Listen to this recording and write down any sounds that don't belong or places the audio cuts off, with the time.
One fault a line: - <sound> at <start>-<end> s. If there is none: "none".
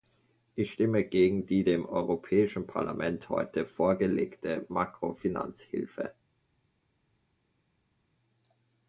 none